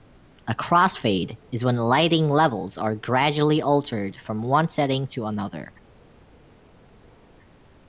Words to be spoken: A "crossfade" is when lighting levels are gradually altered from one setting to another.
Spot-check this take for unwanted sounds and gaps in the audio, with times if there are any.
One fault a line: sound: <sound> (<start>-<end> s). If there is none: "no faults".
no faults